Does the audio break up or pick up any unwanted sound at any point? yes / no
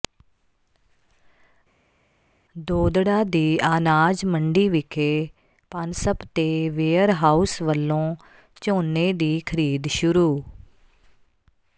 no